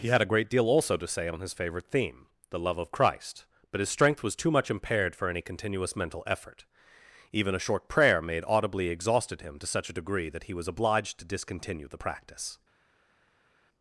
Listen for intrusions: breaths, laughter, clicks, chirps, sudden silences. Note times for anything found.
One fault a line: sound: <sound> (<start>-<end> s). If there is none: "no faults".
no faults